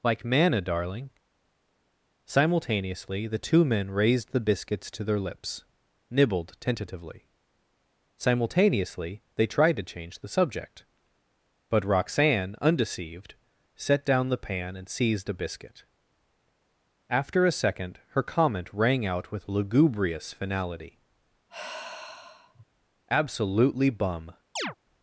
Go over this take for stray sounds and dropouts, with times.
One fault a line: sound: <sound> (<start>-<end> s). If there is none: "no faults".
sound: sigh (21.5-22.7 s)
sound: chirp (24.6-24.8 s)